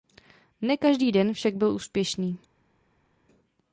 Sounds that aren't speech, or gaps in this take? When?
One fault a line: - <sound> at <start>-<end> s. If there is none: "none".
none